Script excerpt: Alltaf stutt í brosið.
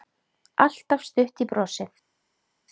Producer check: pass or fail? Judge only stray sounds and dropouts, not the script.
pass